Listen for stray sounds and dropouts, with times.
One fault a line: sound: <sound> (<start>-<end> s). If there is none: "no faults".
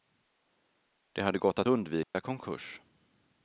sound: dropout (2.0-2.1 s)